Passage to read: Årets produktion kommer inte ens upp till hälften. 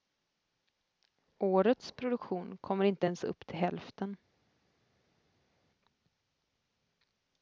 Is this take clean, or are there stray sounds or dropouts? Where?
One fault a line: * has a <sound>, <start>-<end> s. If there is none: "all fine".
all fine